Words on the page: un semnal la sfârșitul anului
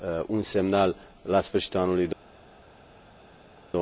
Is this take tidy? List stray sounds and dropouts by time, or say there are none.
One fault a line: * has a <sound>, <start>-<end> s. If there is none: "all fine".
all fine